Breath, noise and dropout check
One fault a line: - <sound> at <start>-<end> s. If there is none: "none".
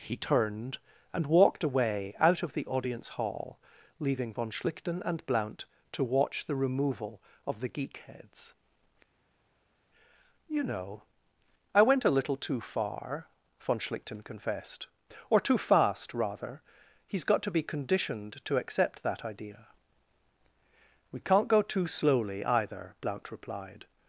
none